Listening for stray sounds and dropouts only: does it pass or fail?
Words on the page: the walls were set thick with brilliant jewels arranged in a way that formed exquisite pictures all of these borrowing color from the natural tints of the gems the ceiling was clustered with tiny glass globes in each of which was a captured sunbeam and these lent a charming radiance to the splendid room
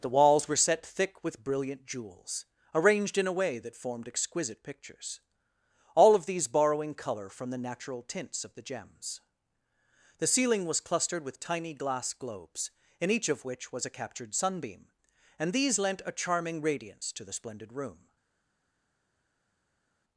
pass